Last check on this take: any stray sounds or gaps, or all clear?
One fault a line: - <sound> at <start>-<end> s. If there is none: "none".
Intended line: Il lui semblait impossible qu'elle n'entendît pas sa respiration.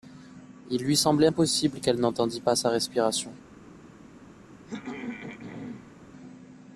- throat clearing at 4.7-6.0 s